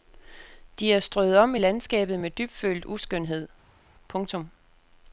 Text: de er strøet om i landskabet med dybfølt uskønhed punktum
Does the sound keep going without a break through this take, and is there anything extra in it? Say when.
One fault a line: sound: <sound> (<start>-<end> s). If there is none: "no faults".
no faults